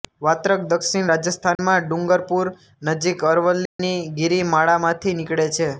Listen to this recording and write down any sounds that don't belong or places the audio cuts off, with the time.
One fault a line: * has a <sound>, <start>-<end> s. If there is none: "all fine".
* has a dropout, 1.6-1.6 s
* has a dropout, 3.7-3.8 s